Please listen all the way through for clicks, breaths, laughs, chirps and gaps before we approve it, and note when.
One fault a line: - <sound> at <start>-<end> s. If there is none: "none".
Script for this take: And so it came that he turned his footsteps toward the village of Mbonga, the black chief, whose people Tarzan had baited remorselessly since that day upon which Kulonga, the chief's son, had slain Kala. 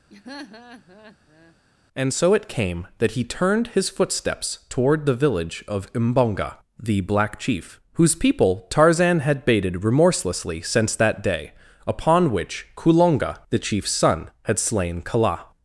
- laugh at 0.1-1.6 s